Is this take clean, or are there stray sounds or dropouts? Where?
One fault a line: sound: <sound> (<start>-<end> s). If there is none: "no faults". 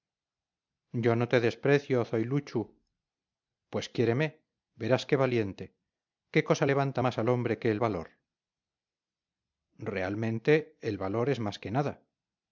no faults